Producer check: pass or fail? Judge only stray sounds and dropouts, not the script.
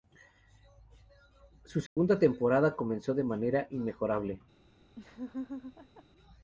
fail